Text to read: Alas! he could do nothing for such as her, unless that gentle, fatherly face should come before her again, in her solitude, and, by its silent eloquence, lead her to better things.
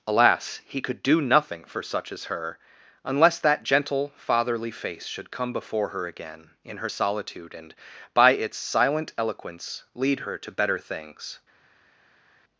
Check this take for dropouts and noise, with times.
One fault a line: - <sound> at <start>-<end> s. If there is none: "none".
none